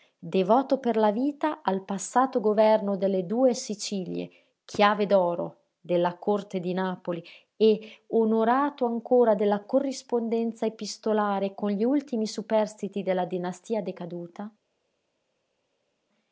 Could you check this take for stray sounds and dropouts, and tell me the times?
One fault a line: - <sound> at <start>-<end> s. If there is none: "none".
none